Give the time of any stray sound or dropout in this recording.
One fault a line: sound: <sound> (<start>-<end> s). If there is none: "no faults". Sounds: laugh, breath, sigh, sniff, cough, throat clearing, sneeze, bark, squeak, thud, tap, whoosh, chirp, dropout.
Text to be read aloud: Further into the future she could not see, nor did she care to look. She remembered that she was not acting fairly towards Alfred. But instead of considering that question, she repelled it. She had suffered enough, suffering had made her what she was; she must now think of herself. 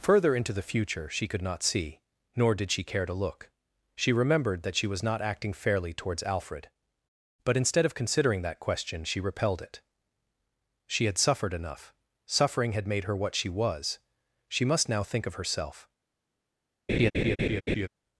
sound: laugh (16.9-17.9 s)